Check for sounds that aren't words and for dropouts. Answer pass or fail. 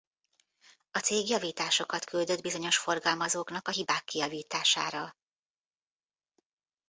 pass